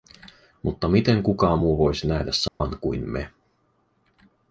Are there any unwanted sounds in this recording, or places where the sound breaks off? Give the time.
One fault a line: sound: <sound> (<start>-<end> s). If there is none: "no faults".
sound: dropout (2.5-2.6 s)